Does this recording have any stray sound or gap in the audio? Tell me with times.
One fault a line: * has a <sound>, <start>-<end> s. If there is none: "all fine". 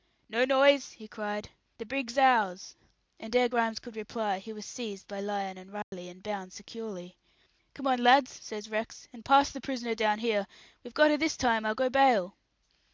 * has a dropout, 5.8-5.9 s